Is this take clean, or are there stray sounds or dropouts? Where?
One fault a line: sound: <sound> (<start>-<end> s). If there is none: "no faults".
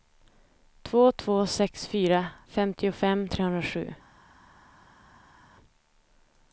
no faults